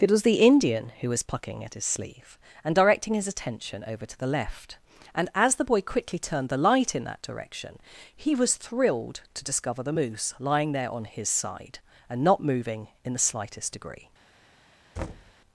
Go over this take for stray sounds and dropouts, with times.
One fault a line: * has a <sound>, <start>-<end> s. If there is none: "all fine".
* has a thud, 15.0-15.3 s